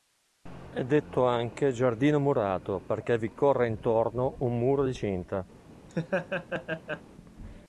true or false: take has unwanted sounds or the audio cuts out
true